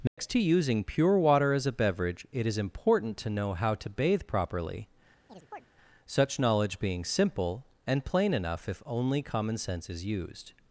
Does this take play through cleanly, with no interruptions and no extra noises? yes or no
no